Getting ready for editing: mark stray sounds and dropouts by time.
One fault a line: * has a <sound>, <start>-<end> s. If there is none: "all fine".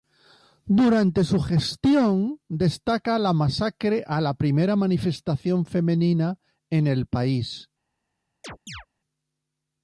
* has a chirp, 8.4-8.9 s